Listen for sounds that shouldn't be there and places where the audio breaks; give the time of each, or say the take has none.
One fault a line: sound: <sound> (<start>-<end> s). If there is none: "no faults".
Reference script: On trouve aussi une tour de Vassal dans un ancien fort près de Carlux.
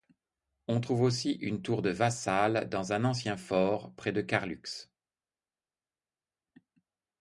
no faults